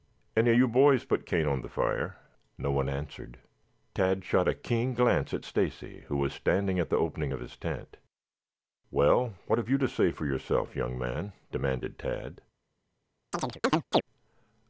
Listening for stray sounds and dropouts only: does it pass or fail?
fail